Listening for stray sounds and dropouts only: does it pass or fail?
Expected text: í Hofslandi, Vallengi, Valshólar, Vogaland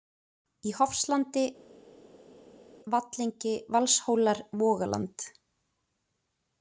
pass